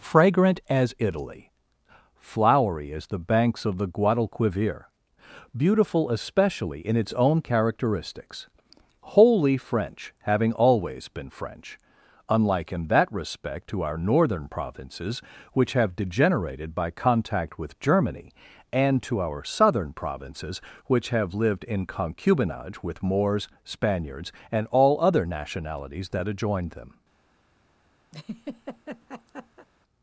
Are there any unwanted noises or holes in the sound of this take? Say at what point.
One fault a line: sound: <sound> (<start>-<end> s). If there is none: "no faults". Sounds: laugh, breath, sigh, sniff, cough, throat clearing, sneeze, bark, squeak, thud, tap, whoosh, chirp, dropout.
sound: laugh (28.1-29.7 s)